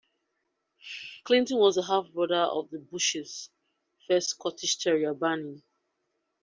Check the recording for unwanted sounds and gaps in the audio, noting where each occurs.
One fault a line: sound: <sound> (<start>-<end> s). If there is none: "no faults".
no faults